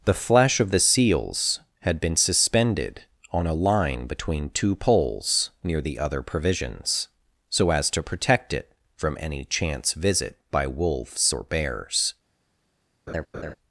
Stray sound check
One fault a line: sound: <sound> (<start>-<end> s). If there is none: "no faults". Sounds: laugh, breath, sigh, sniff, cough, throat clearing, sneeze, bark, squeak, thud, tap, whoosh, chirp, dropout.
sound: laugh (13.1-13.6 s)